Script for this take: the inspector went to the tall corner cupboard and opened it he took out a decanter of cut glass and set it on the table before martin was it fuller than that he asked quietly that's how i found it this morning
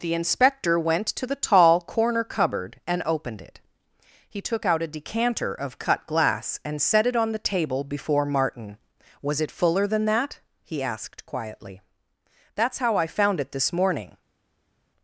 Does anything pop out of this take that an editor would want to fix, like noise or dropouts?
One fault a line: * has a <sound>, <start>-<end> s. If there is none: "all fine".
all fine